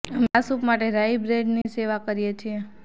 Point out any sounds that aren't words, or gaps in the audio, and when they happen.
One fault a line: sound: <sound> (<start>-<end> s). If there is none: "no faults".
sound: dropout (1.6-1.7 s)